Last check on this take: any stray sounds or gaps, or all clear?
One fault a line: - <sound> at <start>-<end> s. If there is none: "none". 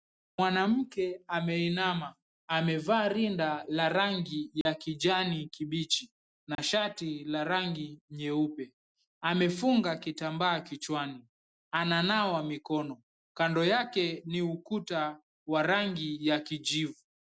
- dropout at 4.6-4.7 s
- dropout at 6.6-6.6 s